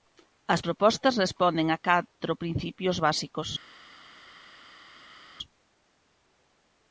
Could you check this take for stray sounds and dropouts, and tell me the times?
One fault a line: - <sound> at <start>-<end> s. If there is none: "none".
none